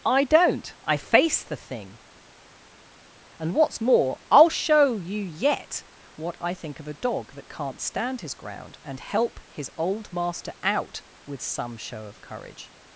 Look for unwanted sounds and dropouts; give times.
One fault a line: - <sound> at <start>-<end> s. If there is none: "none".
none